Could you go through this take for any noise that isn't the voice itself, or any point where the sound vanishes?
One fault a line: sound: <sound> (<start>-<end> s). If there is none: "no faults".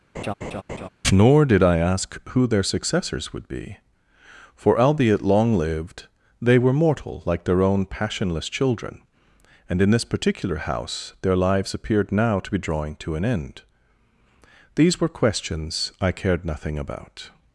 sound: laugh (0.1-0.9 s)